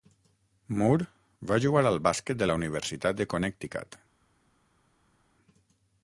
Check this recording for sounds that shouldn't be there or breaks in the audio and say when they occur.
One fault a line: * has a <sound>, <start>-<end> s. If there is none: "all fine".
all fine